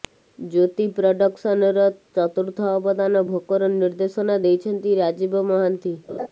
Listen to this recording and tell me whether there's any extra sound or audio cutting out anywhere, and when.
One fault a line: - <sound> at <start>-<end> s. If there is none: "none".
- laugh at 6.1-6.3 s